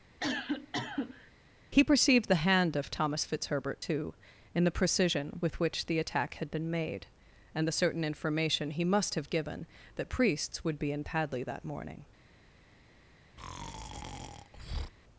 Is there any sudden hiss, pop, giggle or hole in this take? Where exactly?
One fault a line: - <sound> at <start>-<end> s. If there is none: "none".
- cough at 0.2-1.3 s
- breath at 13.4-14.9 s